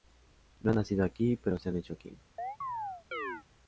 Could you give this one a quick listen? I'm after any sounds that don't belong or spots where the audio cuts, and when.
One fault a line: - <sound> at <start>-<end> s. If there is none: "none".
- chirp at 2.4-3.4 s